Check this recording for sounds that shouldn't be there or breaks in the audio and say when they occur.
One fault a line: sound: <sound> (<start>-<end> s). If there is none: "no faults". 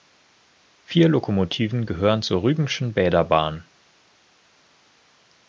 no faults